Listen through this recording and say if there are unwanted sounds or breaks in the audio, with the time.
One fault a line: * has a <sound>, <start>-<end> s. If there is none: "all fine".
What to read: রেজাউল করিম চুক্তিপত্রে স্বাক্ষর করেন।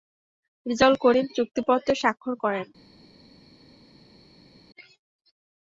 all fine